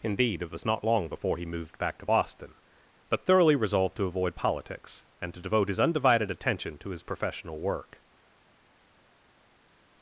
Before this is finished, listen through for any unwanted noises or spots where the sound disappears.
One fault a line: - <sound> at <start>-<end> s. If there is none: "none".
none